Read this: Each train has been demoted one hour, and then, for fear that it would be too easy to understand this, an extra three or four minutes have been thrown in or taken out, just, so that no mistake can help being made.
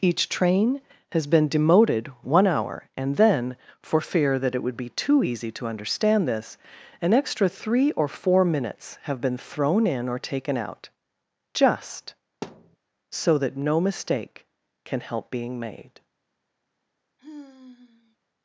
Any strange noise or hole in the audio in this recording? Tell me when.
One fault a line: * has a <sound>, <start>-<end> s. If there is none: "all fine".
* has a thud, 12.4-12.8 s
* has a sigh, 17.2-18.2 s